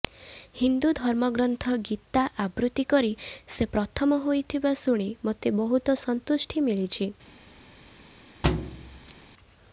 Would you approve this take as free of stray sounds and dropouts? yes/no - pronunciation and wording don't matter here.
no